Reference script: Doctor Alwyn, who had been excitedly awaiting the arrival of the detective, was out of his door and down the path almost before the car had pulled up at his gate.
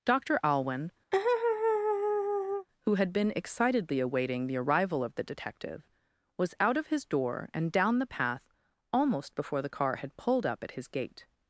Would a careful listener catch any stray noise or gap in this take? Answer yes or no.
yes